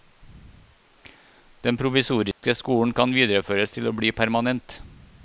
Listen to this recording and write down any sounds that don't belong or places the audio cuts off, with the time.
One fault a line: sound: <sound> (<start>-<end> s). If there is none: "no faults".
sound: dropout (2.3-2.4 s)